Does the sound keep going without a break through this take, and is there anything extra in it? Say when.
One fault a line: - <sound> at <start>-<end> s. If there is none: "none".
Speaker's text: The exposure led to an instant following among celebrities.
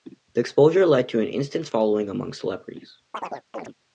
- chirp at 3.1-3.7 s